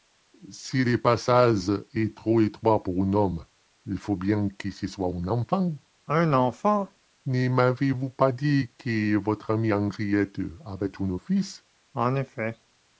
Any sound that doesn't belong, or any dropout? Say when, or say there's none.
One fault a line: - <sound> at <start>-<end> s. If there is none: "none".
none